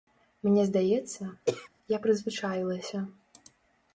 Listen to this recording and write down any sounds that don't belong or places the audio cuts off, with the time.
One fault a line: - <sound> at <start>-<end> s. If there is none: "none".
- throat clearing at 1.5-1.7 s